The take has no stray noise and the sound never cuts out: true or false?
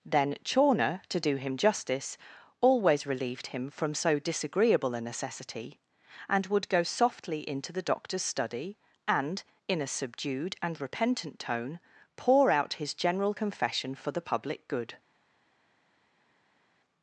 true